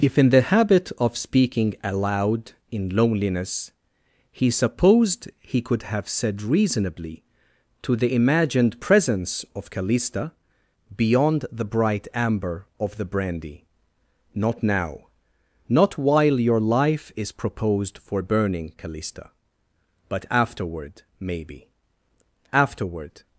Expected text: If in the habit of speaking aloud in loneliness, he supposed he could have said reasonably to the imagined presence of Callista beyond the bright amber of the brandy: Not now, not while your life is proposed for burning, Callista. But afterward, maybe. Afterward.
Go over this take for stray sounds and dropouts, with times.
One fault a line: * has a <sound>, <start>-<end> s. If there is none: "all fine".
all fine